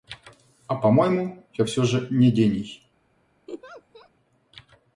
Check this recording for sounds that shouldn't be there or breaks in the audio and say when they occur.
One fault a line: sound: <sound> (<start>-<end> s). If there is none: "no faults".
sound: laugh (3.5-4.1 s)